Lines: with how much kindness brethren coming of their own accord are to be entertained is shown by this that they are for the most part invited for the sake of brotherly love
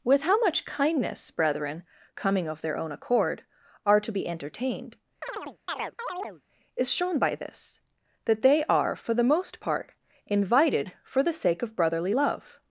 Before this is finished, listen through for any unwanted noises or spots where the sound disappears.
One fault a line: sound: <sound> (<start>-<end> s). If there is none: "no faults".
sound: chirp (5.2-6.4 s)